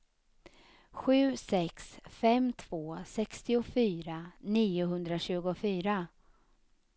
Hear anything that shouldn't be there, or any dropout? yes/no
no